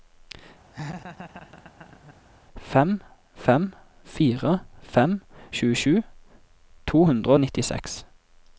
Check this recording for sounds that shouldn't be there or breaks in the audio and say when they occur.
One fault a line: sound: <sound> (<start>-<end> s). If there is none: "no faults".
sound: laugh (0.7-2.2 s)